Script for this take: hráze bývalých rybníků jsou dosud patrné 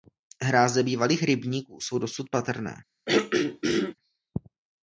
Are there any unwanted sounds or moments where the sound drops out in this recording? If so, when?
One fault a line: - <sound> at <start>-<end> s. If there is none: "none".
- throat clearing at 3.1-4.0 s